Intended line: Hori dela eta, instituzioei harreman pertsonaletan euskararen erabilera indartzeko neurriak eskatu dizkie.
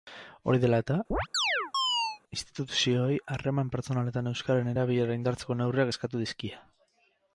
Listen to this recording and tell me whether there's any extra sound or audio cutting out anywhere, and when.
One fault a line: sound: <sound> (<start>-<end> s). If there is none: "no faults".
sound: chirp (1.1-2.2 s)